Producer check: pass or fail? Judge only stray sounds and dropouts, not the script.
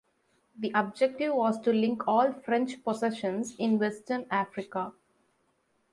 pass